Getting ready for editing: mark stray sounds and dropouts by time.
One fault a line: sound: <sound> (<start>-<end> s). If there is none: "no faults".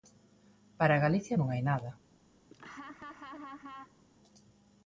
sound: laugh (2.5-4.0 s)